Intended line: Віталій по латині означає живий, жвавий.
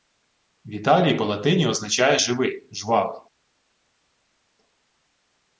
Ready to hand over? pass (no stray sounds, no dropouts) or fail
pass